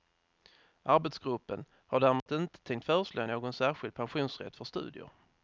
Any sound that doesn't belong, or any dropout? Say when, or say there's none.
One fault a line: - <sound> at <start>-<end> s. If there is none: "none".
- dropout at 2.2-2.3 s